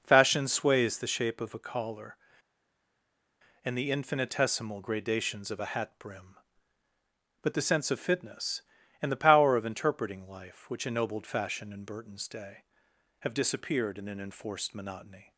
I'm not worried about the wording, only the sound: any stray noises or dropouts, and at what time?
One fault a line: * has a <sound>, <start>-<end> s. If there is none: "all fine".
all fine